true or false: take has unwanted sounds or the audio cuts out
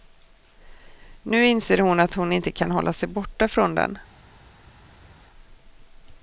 false